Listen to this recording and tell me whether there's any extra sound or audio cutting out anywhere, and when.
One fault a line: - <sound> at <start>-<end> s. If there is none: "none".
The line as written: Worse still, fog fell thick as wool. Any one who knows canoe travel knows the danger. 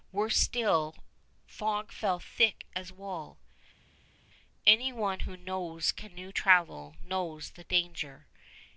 none